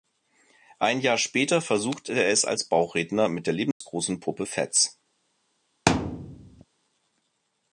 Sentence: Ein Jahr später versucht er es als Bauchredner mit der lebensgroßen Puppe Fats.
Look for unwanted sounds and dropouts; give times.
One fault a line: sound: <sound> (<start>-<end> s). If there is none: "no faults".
sound: dropout (3.7-3.8 s)
sound: thud (5.9-6.6 s)